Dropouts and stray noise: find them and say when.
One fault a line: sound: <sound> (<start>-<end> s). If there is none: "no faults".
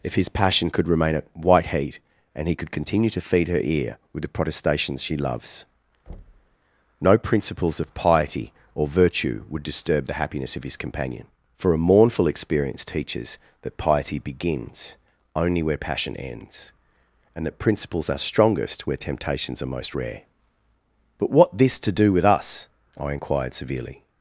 sound: thud (6.1-6.6 s)